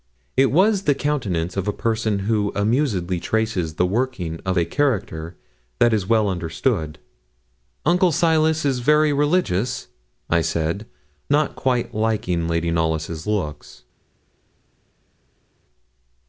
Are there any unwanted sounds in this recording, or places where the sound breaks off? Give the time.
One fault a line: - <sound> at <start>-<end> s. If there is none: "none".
none